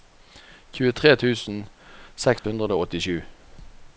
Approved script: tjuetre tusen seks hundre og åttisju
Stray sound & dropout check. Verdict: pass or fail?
fail